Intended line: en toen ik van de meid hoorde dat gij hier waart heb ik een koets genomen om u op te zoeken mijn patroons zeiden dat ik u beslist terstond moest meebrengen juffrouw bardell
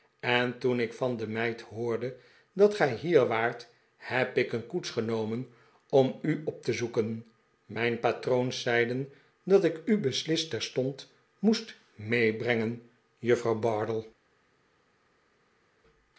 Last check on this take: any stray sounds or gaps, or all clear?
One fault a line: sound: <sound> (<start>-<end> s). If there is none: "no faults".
no faults